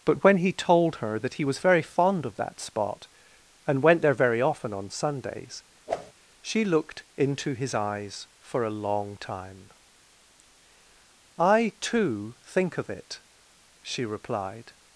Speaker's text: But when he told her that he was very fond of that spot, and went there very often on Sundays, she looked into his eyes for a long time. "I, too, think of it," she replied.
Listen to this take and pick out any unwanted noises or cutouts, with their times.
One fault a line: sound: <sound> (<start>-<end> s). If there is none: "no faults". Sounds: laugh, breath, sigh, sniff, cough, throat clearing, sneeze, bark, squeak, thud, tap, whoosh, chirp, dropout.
sound: whoosh (5.9-6.1 s)